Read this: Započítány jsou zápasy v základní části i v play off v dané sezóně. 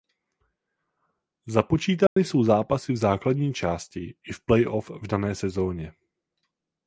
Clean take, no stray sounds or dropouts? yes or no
no